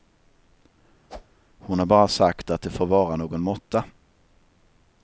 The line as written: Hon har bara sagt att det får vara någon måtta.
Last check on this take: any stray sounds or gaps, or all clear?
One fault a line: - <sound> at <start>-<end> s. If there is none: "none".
- whoosh at 1.1-1.4 s